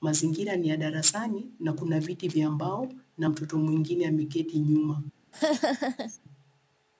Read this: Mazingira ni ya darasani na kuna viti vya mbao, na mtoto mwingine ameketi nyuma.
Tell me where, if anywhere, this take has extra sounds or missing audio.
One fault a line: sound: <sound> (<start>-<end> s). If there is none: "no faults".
sound: laugh (5.3-6.2 s)